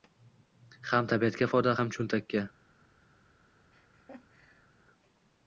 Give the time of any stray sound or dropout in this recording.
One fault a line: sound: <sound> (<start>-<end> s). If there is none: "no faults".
sound: laugh (3.7-4.7 s)